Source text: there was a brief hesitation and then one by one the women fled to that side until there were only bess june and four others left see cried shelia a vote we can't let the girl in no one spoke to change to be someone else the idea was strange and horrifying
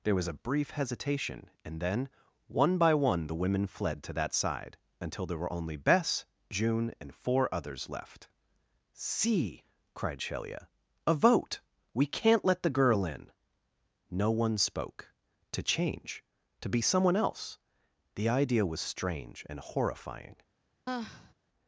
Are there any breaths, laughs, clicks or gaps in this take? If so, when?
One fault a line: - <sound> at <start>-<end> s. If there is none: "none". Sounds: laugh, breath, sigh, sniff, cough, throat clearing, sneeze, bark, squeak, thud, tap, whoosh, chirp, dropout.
- sigh at 20.9-21.3 s